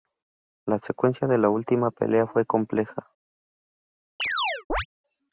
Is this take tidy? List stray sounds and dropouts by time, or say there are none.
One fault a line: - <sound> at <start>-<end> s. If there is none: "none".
- chirp at 4.2-4.9 s